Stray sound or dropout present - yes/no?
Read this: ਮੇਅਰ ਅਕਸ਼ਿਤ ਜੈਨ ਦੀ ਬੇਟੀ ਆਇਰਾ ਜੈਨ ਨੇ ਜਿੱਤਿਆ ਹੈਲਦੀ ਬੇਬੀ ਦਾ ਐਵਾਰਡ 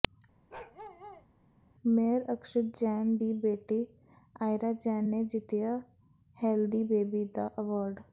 yes